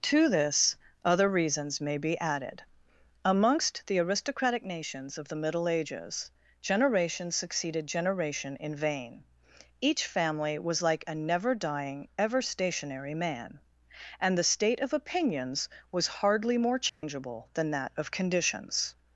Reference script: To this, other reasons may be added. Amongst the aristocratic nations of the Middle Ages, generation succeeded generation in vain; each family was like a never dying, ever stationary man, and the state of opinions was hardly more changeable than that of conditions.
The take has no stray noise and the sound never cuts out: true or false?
false